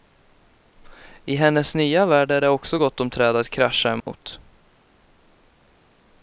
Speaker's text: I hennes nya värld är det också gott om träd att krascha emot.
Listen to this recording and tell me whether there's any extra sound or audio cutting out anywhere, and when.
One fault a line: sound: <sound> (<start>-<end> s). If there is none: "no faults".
sound: dropout (4.0-4.1 s)